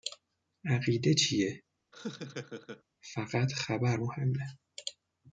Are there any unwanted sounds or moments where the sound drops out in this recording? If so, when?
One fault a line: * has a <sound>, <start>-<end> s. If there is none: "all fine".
* has a laugh, 1.9-2.8 s